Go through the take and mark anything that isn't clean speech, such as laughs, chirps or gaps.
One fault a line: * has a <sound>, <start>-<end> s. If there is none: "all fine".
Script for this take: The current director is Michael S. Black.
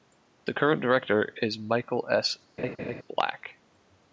* has a laugh, 2.6-3.0 s